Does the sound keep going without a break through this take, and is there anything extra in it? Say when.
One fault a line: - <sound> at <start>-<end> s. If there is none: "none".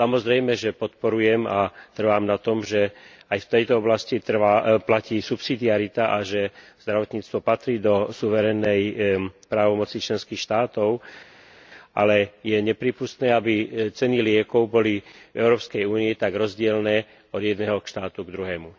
none